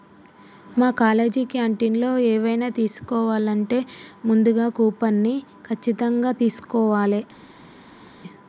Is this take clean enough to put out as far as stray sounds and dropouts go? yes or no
yes